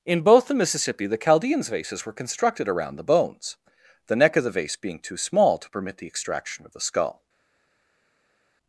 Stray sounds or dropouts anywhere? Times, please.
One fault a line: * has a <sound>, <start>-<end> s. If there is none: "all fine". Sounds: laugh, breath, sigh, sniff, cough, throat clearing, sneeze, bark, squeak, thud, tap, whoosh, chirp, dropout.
all fine